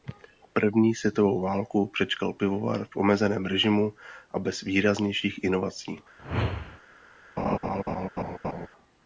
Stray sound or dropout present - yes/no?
yes